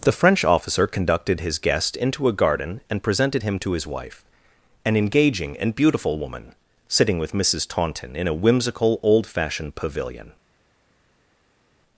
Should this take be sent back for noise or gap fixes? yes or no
no